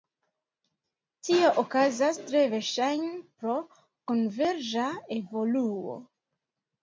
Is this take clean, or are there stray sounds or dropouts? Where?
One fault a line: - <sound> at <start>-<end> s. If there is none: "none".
none